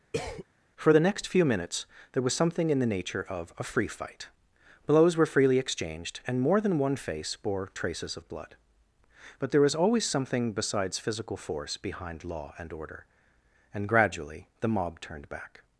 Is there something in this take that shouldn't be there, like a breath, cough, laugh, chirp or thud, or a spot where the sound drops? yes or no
yes